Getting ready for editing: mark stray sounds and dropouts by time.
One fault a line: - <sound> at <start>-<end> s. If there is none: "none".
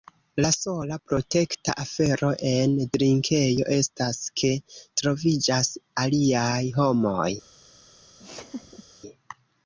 - laugh at 8.2-8.8 s